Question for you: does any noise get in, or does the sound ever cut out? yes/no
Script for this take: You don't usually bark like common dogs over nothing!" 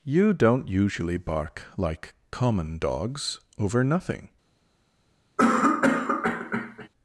yes